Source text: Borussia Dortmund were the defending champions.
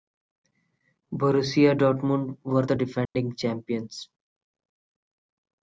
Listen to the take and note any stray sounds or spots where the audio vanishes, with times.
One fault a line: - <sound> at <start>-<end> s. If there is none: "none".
- dropout at 3.1-3.2 s